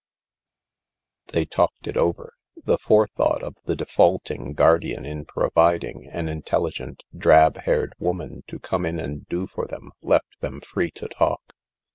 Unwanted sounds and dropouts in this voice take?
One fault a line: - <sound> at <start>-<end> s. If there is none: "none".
none